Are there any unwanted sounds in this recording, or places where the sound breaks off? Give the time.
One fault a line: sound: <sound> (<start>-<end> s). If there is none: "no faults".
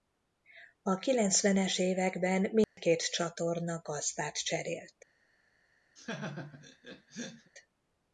sound: dropout (2.6-2.8 s)
sound: laugh (6.0-7.5 s)